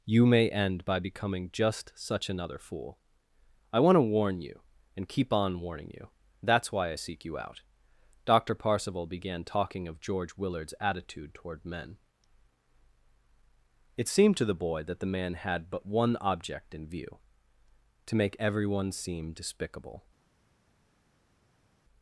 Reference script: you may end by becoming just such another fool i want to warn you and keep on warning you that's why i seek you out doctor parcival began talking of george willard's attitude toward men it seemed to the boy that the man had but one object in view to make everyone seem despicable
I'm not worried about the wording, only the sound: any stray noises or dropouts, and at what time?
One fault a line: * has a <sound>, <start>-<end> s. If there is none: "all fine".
all fine